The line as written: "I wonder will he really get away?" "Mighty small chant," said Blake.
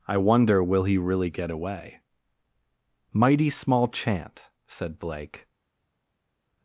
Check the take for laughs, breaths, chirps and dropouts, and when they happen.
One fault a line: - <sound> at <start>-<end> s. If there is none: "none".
none